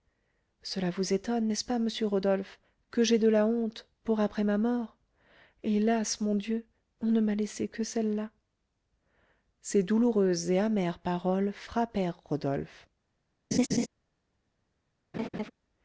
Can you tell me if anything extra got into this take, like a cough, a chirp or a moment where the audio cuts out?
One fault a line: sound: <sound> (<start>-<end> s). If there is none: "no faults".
sound: laugh (13.5-13.9 s)
sound: laugh (15.1-15.5 s)